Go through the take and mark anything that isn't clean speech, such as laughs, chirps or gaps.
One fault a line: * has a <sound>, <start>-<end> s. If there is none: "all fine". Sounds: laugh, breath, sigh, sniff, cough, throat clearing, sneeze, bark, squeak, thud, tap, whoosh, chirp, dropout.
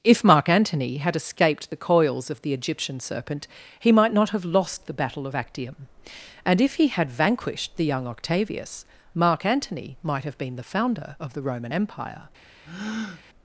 * has a breath, 12.6-13.2 s